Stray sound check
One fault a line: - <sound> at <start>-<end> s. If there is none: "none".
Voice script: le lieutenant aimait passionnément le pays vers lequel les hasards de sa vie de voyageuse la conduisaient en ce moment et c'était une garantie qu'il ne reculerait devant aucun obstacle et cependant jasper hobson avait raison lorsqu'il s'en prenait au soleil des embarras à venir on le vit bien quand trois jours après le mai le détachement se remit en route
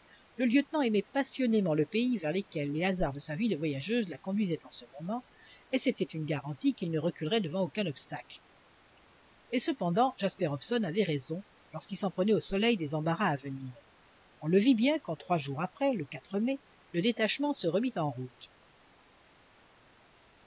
none